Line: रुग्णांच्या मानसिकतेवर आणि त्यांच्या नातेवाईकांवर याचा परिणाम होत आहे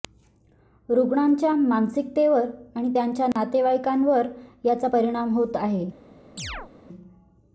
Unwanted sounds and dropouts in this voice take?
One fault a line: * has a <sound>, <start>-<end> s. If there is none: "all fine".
* has a dropout, 3.3-3.4 s
* has a chirp, 6.4-6.7 s